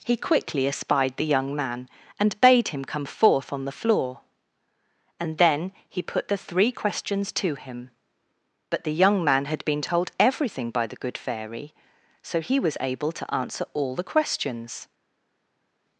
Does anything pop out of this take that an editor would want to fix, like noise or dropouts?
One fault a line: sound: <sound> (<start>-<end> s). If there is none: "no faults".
no faults